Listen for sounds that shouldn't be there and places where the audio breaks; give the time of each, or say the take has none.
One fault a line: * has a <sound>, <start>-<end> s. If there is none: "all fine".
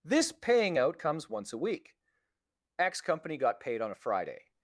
all fine